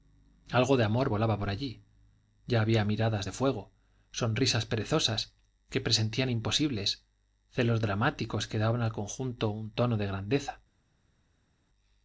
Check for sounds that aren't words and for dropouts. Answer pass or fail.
pass